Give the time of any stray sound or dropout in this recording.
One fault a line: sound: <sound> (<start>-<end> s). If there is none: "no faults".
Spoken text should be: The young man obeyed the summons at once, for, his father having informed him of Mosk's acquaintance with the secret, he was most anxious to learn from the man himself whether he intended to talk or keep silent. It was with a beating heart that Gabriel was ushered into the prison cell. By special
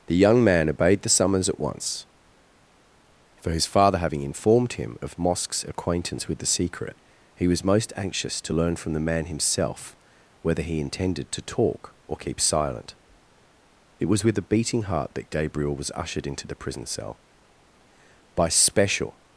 no faults